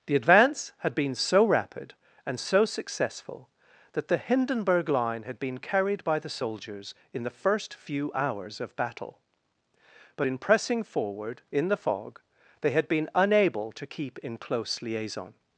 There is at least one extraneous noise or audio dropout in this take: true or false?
false